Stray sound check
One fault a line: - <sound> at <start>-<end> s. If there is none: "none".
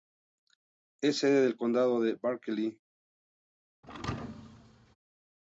- thud at 3.8-5.0 s